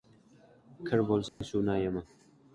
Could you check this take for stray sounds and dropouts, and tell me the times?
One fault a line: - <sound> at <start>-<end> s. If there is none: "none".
- dropout at 1.3-1.4 s